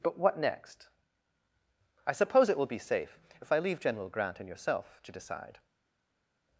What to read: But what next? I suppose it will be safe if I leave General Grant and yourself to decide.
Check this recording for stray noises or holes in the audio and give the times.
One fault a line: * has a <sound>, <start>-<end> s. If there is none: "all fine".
all fine